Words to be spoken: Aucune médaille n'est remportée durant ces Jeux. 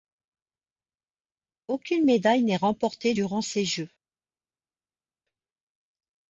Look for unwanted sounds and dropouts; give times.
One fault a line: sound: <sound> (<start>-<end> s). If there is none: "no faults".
no faults